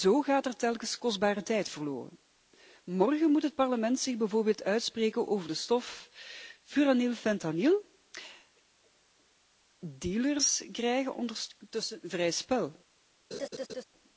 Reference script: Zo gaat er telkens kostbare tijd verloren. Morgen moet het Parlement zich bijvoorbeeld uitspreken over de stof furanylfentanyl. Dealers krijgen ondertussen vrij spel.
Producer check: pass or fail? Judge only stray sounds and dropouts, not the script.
fail